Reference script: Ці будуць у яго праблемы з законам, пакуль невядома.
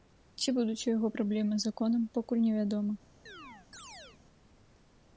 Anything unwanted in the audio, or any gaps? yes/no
yes